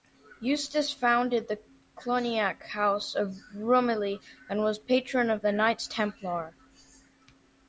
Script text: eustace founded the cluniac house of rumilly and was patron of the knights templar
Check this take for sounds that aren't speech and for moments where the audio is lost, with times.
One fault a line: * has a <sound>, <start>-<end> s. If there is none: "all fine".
all fine